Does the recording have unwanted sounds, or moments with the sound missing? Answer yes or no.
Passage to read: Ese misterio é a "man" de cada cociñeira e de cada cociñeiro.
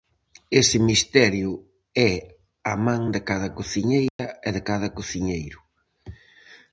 yes